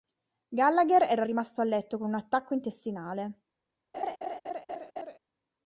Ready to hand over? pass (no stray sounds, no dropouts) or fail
fail